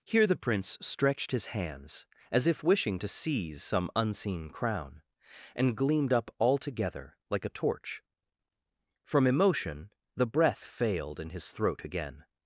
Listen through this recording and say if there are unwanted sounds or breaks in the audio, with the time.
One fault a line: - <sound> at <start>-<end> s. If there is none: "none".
none